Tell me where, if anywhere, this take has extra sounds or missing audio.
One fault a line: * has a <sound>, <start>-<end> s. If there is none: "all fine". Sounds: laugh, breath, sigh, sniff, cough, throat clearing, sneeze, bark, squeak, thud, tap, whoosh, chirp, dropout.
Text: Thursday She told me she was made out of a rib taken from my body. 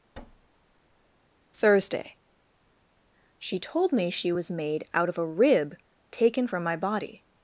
* has a thud, 0.1-1.1 s